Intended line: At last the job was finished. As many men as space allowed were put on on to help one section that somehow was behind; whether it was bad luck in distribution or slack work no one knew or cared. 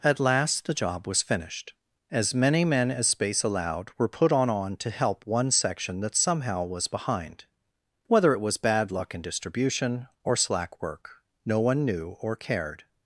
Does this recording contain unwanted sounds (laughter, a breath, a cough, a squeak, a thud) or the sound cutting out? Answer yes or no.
no